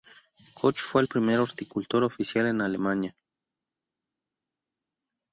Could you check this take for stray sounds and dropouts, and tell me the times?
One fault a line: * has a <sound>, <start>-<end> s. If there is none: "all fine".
all fine